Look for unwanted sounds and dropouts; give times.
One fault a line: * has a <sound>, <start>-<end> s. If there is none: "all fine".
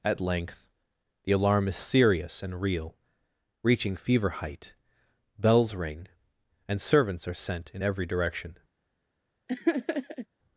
* has a laugh, 9.5-10.3 s